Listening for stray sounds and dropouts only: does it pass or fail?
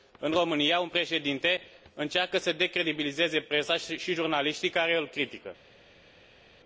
pass